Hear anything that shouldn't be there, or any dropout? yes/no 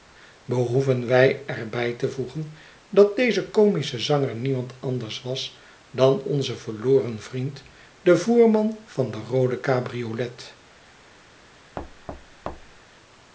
yes